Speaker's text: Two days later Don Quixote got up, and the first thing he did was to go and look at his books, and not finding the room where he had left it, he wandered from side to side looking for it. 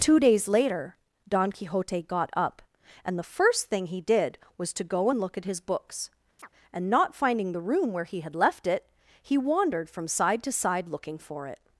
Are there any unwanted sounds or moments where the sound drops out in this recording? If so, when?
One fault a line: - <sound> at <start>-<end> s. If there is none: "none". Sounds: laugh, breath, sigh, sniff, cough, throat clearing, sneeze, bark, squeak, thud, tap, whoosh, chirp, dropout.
- chirp at 6.4-6.5 s